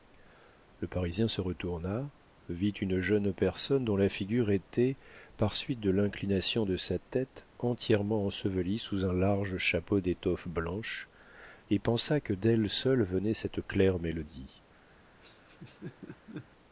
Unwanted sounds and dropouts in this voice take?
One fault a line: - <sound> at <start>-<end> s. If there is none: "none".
- laugh at 15.2-16.5 s